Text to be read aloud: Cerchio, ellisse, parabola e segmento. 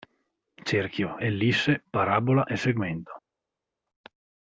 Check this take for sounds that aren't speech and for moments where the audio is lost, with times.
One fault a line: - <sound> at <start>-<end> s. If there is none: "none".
none